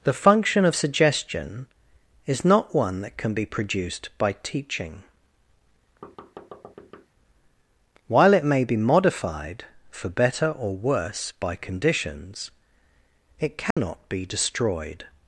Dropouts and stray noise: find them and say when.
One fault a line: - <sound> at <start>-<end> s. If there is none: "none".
- thud at 6.0-7.1 s
- dropout at 13.7-13.8 s